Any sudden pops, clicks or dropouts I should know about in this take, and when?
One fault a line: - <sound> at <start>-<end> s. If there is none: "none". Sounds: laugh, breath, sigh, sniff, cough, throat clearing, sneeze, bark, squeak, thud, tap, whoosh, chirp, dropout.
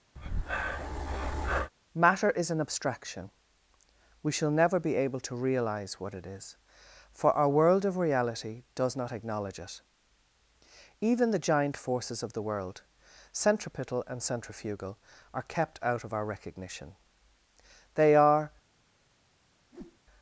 - breath at 0.2-1.7 s
- whoosh at 19.7-20.0 s